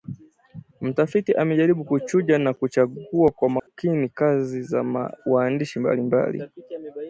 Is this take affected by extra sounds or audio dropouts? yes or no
yes